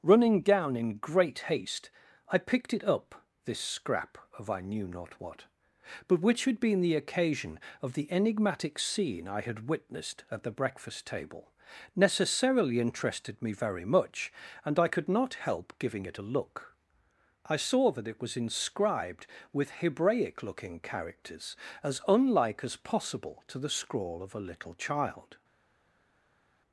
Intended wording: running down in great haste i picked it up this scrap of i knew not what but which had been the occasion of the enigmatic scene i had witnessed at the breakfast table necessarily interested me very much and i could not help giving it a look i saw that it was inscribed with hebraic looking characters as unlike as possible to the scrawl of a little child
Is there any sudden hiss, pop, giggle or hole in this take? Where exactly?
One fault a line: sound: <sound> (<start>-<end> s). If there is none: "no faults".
no faults